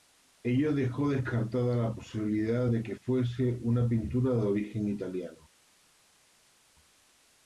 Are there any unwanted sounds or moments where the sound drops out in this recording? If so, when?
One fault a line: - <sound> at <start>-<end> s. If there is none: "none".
none